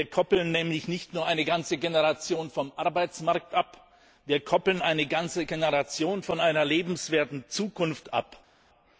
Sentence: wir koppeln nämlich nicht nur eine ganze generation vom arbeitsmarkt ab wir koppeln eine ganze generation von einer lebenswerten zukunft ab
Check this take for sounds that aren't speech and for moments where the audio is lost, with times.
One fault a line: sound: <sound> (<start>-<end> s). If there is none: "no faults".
no faults